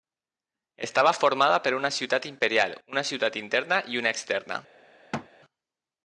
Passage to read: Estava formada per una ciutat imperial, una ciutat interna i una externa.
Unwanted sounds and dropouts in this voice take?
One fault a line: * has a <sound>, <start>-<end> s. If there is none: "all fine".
* has a thud, 5.1-5.3 s